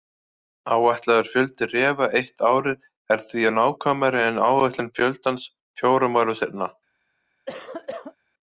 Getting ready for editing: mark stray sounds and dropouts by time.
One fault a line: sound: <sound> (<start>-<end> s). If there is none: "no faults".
sound: cough (7.5-8.2 s)